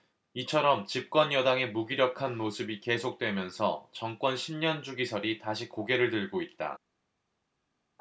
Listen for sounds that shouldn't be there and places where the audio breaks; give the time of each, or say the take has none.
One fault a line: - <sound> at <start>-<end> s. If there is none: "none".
none